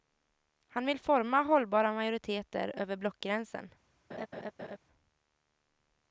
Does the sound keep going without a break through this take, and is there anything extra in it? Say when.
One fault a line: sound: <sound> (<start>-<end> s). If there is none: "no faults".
sound: laugh (4.1-4.8 s)